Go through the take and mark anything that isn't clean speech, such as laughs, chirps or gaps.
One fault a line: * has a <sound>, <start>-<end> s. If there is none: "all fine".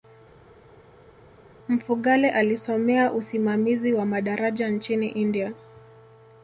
all fine